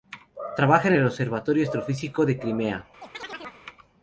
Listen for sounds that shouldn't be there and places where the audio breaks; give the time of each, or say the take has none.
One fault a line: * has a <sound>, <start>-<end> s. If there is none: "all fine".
* has a chirp, 3.0-3.6 s